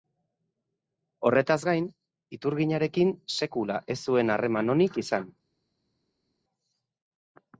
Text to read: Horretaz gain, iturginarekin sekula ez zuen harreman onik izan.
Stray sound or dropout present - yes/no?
no